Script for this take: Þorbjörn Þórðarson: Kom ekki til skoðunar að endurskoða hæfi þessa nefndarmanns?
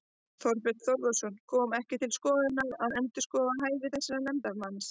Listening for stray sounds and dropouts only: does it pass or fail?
pass